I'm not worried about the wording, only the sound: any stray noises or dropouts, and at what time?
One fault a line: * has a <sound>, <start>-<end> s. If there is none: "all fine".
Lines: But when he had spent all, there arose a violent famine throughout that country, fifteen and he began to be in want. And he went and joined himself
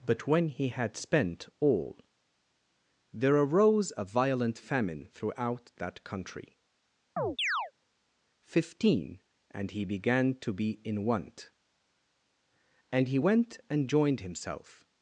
* has a chirp, 7.2-7.7 s